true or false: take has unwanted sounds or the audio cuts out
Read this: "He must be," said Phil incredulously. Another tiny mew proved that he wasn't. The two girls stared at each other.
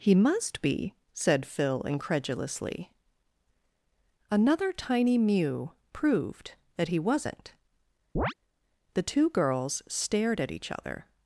true